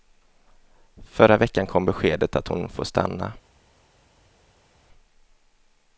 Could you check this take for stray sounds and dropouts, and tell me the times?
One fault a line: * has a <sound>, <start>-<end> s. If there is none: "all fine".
all fine